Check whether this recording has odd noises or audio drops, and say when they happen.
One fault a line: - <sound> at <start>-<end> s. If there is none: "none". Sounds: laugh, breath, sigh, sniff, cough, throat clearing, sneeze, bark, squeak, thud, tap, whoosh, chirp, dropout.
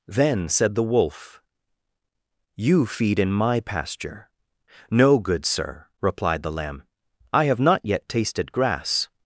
none